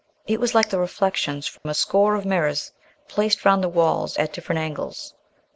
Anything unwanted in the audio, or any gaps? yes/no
yes